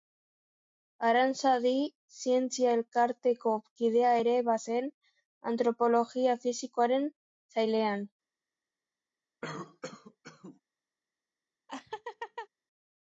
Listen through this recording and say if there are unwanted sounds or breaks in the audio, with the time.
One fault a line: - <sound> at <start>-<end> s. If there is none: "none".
- cough at 9.4-10.6 s
- laugh at 11.7-12.5 s